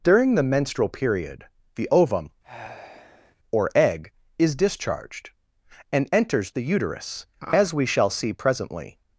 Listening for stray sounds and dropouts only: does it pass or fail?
fail